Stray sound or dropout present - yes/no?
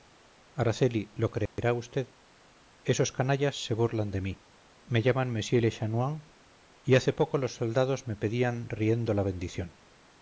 yes